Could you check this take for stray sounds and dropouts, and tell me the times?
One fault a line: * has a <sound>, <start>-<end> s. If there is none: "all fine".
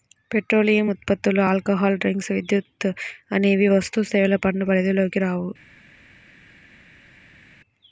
all fine